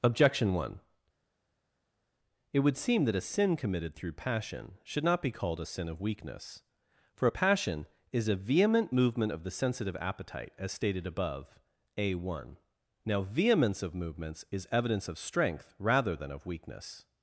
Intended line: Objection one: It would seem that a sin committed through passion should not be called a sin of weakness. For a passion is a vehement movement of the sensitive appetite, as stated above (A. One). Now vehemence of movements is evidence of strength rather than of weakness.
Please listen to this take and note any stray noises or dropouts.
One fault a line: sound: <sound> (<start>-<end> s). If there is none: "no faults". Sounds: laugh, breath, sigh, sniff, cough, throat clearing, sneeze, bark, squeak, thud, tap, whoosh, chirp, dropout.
no faults